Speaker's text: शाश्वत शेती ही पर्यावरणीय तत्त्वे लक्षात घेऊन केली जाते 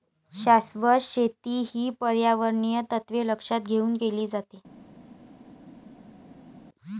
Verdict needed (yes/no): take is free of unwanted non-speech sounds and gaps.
yes